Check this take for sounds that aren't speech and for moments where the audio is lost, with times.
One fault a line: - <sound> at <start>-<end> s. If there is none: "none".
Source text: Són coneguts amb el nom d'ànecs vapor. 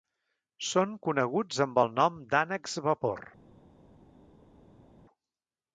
none